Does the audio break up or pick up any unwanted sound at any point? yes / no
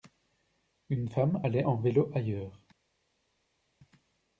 no